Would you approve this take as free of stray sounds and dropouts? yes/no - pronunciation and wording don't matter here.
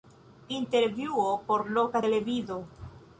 yes